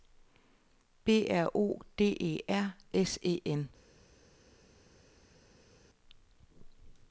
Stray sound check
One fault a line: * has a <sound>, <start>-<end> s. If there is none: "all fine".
all fine